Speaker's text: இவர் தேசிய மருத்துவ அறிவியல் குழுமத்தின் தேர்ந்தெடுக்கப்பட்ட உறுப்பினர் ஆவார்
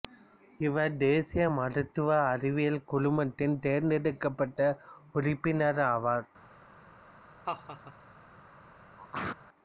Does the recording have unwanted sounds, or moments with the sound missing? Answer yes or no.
yes